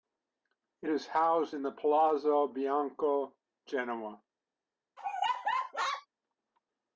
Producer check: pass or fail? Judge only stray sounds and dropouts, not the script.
fail